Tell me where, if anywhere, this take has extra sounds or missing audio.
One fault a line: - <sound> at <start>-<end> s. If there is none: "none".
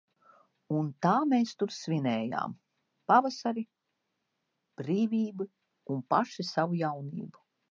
none